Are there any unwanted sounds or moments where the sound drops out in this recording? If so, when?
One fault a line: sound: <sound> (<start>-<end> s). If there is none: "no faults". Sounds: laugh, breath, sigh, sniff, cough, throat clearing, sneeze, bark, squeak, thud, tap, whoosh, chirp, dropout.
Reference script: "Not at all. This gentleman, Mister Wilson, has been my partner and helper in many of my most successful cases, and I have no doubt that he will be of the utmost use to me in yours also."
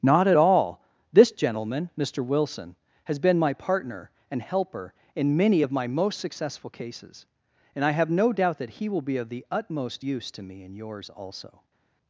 no faults